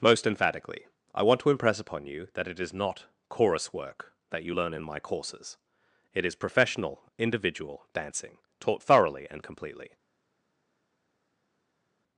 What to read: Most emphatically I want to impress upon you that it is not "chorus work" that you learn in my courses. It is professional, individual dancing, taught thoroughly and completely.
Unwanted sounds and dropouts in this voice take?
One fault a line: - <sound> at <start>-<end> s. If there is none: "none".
none